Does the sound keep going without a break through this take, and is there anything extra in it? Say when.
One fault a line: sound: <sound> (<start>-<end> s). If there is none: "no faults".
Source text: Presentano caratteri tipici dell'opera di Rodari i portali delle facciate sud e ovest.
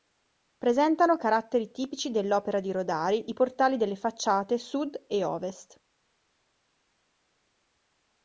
no faults